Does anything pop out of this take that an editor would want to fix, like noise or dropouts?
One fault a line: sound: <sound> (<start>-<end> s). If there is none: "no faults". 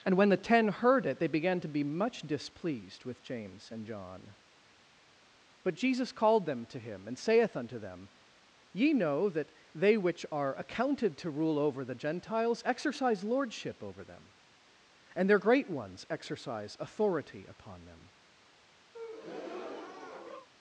sound: breath (18.9-20.5 s)